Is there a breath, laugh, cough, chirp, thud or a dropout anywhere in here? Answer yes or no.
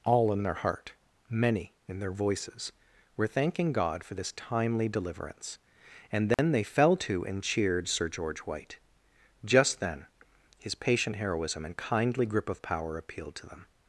yes